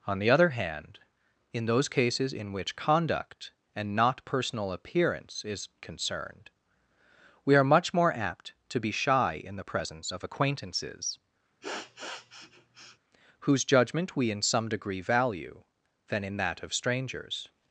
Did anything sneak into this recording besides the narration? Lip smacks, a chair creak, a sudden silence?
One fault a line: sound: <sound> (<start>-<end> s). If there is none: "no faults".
sound: sniff (11.6-13.0 s)